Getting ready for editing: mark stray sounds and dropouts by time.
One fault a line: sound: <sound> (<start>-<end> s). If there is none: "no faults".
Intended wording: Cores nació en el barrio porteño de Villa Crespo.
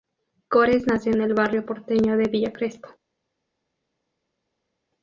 no faults